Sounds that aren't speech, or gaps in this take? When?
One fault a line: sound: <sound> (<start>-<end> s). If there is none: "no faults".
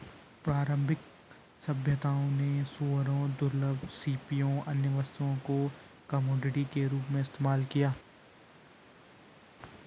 no faults